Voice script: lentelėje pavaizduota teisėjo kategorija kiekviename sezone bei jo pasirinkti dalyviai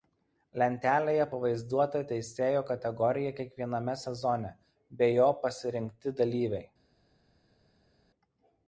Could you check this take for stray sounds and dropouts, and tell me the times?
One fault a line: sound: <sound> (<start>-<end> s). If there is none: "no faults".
no faults